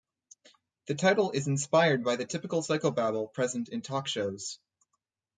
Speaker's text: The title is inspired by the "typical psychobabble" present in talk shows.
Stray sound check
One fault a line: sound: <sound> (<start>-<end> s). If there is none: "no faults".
no faults